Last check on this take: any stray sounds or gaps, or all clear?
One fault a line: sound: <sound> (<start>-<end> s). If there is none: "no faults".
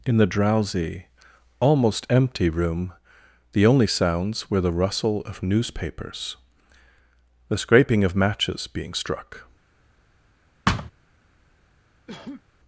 sound: thud (10.7-10.9 s)
sound: cough (12.1-12.4 s)